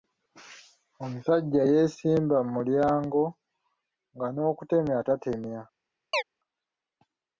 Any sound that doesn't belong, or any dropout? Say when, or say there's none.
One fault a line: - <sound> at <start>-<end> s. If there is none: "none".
- chirp at 6.1-6.2 s